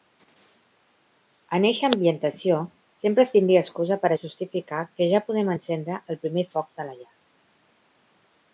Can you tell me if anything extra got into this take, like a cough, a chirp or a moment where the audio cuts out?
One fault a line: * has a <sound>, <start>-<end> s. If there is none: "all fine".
all fine